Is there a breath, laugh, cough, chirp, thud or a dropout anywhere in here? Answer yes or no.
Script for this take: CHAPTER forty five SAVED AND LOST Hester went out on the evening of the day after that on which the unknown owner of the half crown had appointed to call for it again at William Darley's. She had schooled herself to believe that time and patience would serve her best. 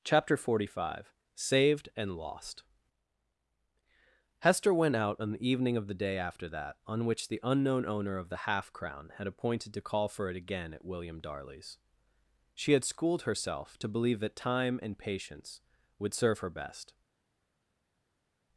no